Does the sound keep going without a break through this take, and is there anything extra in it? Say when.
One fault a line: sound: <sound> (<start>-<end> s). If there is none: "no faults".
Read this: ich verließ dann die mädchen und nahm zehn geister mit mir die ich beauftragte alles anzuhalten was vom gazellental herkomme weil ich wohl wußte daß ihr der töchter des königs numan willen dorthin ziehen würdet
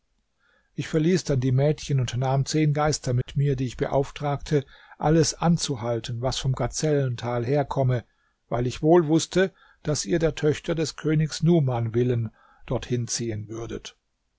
sound: dropout (3.2-3.3 s)